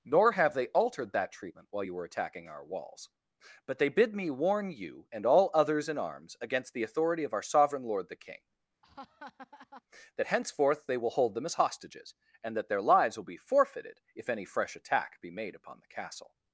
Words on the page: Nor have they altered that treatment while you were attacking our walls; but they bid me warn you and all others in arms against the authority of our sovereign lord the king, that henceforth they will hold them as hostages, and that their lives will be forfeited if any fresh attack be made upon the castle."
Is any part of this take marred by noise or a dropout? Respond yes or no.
yes